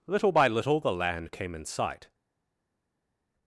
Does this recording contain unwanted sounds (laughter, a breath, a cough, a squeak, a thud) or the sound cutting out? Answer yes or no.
no